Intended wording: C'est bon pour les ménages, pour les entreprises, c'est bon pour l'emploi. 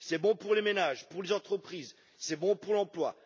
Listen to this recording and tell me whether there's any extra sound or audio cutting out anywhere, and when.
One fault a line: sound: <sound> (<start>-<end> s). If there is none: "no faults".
no faults